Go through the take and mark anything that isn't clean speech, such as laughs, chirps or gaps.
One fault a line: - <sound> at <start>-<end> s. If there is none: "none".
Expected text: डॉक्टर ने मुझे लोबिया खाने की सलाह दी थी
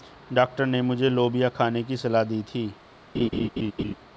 - laugh at 3.1-3.9 s